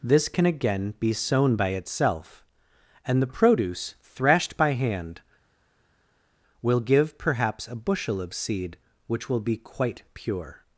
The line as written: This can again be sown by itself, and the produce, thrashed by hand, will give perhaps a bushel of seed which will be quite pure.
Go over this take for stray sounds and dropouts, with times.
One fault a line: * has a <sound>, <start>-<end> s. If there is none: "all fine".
all fine